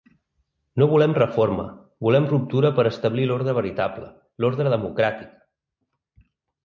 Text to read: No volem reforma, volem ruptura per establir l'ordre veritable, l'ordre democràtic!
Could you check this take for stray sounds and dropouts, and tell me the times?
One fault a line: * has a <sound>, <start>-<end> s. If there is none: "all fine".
all fine